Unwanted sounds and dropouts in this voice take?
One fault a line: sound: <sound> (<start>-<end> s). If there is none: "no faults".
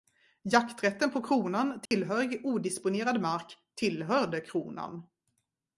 sound: dropout (1.9-1.9 s)